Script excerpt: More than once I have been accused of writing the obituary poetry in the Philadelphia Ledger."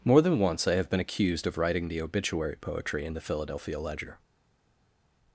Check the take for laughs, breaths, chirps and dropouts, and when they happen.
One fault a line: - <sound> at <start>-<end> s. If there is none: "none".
none